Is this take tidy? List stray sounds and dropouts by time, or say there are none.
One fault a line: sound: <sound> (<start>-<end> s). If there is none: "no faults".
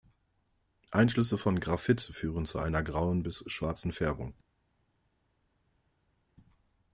no faults